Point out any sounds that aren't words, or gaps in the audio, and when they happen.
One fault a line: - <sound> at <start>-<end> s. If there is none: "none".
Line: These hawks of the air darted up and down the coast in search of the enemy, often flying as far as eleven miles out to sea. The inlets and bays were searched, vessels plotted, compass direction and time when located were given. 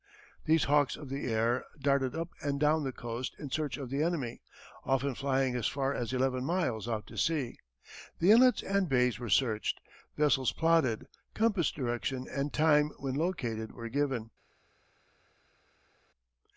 none